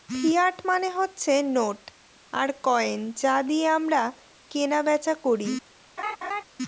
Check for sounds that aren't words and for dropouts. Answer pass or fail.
fail